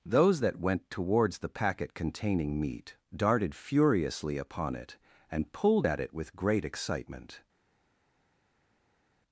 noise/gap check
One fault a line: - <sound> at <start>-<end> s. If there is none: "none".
none